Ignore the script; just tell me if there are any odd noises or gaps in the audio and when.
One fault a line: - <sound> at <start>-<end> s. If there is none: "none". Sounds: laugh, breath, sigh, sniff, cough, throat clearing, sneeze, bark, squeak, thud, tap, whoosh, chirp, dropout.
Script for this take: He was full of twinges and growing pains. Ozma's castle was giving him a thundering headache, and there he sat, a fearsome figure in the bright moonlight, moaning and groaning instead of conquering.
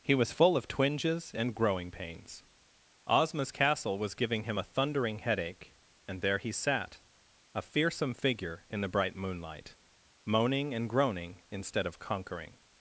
none